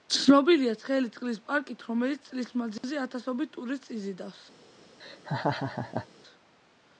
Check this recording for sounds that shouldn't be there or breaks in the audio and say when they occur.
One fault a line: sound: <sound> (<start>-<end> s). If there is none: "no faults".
sound: dropout (2.8-2.8 s)
sound: laugh (5.0-6.1 s)